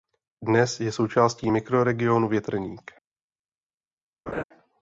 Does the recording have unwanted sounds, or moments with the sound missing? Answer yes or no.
yes